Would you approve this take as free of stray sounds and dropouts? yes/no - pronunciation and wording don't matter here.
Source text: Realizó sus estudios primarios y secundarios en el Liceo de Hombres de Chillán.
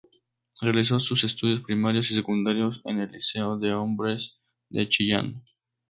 yes